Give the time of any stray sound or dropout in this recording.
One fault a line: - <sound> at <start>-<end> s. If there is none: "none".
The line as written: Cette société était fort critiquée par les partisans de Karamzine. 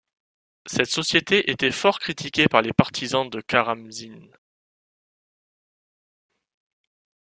none